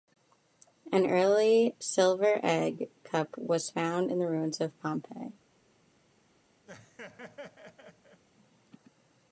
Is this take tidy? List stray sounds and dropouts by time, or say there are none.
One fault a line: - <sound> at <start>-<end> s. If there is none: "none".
- laugh at 6.7-8.2 s